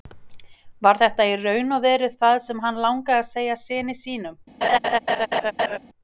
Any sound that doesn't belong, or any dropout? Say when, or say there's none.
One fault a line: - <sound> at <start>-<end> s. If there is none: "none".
- laugh at 4.6-5.8 s